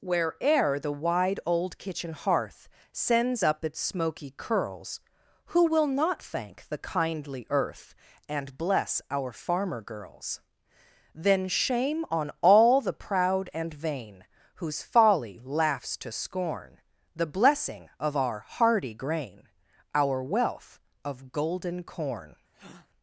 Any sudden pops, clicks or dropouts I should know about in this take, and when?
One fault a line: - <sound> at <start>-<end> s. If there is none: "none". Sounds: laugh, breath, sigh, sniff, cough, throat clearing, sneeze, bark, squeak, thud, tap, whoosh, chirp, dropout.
- breath at 22.5-22.9 s